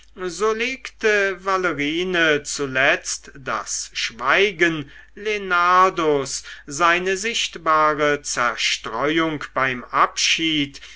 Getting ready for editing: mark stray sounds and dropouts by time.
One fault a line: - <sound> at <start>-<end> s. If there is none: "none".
none